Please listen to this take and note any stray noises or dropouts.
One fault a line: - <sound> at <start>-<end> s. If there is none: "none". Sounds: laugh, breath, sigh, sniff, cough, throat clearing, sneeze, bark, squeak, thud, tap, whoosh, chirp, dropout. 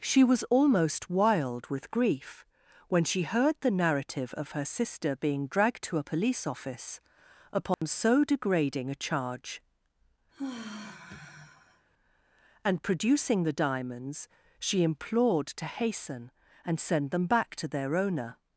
- dropout at 7.7-7.8 s
- sigh at 10.3-11.9 s